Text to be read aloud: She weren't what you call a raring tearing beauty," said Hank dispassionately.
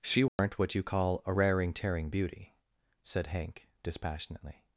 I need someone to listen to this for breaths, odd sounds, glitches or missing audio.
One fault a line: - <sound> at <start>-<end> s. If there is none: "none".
- dropout at 0.3-0.4 s